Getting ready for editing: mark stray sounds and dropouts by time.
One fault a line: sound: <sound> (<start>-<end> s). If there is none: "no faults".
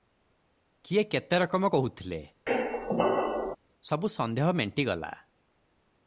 sound: squeak (2.5-3.6 s)